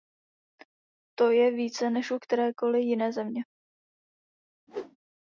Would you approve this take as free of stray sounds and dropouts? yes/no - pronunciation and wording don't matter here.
no